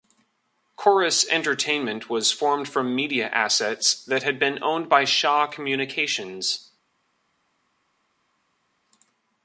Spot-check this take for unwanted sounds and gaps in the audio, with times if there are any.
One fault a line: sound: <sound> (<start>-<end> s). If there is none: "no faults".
no faults